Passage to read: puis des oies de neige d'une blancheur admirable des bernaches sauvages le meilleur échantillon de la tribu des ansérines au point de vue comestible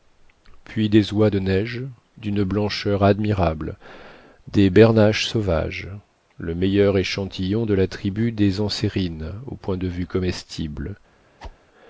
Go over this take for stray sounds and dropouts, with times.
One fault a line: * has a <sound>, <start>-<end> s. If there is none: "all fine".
* has a whoosh, 11.4-11.6 s